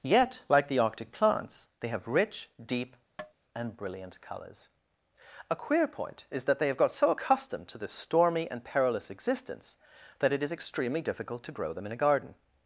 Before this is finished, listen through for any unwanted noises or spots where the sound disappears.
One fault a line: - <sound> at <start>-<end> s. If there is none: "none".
- tap at 3.2-3.3 s